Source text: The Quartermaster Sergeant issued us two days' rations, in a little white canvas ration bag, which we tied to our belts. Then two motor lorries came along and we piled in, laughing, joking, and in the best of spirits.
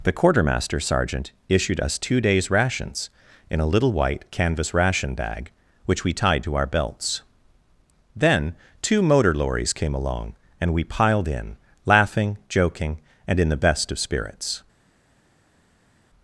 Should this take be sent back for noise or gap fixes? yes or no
no